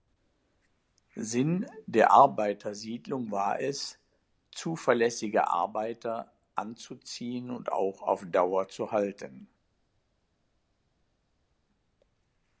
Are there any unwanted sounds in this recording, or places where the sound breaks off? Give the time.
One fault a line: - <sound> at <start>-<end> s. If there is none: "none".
none